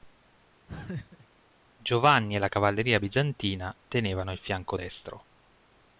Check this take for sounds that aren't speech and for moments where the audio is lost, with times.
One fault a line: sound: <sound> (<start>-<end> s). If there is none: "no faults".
sound: laugh (0.7-1.3 s)